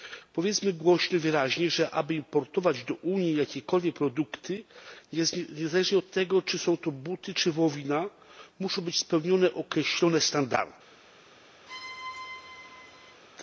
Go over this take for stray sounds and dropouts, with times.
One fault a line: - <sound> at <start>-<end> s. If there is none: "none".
- squeak at 11.7-13.2 s